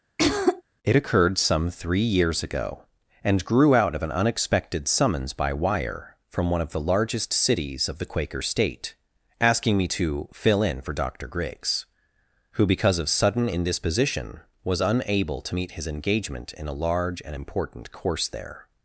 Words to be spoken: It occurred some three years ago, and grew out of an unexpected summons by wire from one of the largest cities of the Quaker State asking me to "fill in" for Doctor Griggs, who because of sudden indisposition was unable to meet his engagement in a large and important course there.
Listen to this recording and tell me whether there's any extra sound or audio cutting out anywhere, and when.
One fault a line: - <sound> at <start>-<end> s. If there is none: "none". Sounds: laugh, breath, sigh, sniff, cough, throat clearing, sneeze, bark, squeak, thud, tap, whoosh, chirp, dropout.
- throat clearing at 0.2-0.6 s